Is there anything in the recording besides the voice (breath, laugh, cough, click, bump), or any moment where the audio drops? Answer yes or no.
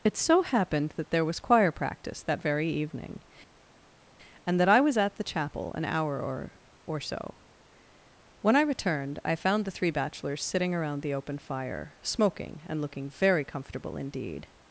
no